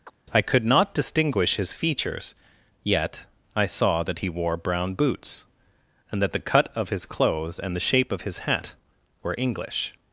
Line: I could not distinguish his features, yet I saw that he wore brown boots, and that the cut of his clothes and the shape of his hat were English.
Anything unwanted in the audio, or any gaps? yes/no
yes